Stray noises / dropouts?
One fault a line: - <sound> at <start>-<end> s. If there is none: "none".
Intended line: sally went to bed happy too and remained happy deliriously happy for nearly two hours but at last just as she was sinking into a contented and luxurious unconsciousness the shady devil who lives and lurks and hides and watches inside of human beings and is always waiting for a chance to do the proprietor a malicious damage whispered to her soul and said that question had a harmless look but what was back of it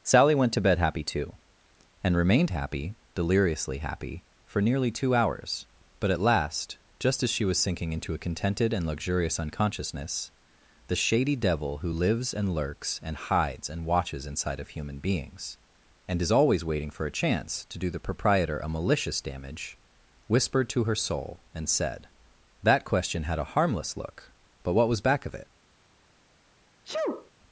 - sneeze at 26.8-27.3 s